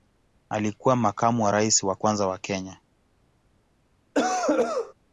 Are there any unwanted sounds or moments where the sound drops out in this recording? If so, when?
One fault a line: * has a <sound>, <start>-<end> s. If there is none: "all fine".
* has a cough, 4.1-4.9 s